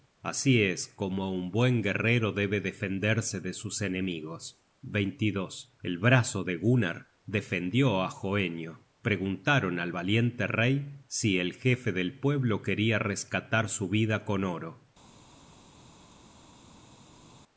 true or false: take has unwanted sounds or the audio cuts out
false